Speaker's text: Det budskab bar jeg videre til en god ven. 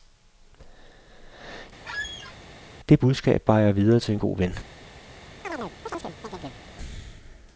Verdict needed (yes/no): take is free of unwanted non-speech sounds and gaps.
no